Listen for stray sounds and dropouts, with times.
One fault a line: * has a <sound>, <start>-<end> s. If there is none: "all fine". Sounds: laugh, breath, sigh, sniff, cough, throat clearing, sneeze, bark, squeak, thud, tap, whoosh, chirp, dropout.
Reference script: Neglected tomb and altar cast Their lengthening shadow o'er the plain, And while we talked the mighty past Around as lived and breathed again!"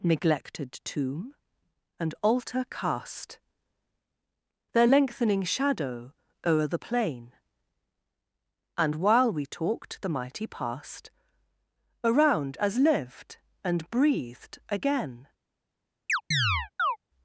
* has a chirp, 16.1-17.0 s